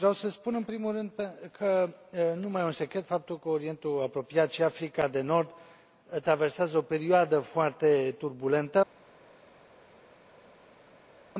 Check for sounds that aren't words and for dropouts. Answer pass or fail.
pass